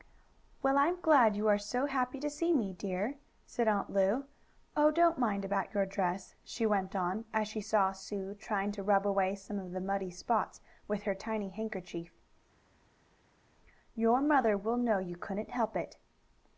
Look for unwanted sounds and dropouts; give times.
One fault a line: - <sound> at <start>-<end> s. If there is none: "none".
none